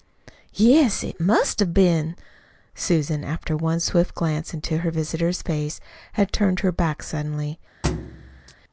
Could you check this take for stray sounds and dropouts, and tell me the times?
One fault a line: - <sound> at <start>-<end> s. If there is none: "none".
- thud at 7.8-8.5 s